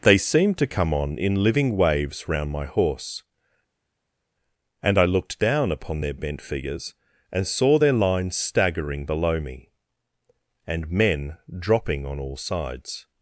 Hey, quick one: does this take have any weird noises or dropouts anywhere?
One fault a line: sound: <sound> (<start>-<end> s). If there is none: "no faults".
no faults